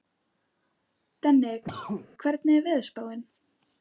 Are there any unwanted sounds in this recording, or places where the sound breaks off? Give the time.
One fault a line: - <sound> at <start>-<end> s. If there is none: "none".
- cough at 1.6-2.1 s